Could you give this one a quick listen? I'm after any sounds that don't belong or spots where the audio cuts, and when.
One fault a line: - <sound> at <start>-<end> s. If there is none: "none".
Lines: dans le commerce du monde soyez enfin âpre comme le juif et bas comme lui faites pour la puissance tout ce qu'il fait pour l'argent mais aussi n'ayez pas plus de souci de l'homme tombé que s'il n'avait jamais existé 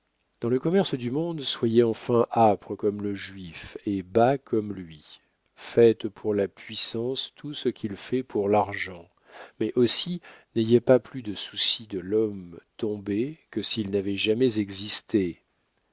none